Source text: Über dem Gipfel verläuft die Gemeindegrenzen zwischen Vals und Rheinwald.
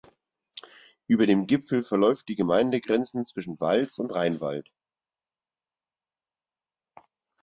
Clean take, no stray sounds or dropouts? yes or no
yes